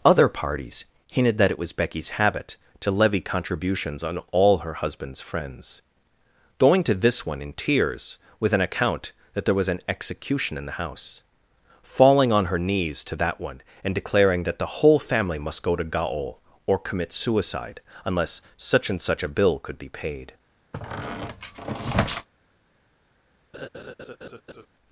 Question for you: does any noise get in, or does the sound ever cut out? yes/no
yes